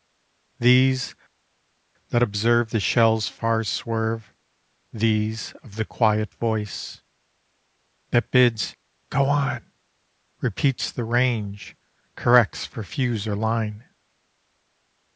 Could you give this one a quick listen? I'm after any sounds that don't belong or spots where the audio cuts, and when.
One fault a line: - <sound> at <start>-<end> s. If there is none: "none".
none